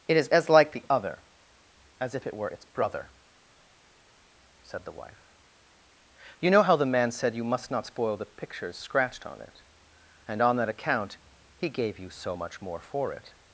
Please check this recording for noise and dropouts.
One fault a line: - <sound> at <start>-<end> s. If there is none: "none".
none